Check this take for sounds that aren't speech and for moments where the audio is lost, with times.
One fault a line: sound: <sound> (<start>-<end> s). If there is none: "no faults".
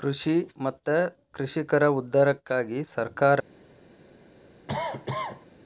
sound: cough (4.7-5.5 s)